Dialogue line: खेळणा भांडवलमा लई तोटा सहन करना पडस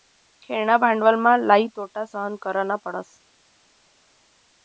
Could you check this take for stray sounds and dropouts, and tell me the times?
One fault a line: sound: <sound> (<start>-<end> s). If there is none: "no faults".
no faults